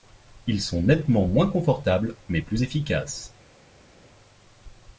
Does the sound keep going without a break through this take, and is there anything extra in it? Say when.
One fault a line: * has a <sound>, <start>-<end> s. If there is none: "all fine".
all fine